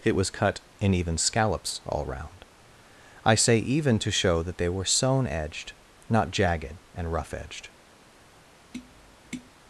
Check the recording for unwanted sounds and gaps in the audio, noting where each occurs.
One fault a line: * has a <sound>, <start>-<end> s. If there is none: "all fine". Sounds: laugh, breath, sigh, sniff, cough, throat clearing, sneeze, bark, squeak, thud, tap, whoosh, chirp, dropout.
* has a tap, 8.7-9.5 s